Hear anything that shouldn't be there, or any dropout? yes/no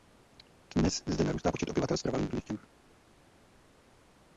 no